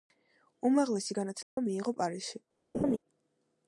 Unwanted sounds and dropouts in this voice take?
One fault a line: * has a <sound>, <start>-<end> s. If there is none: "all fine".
* has a dropout, 1.4-1.6 s
* has a laugh, 2.7-3.0 s